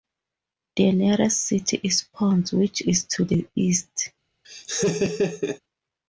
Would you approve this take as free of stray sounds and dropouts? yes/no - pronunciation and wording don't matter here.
no